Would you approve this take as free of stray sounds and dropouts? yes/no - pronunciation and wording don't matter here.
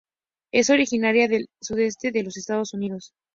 yes